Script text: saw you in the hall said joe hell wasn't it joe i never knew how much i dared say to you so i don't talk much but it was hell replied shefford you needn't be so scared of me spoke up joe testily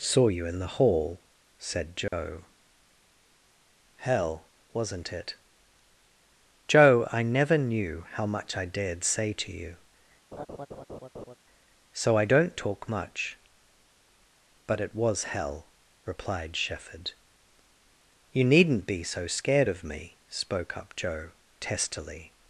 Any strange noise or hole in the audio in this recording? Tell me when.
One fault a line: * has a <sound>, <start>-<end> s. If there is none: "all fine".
* has a dropout, 2.1-2.1 s
* has a laugh, 10.3-11.3 s